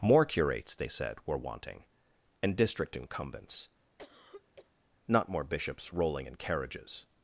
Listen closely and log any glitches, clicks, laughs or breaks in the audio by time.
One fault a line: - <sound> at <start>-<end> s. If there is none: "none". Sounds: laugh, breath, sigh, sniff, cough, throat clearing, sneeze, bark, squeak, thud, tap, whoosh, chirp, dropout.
- cough at 4.0-4.7 s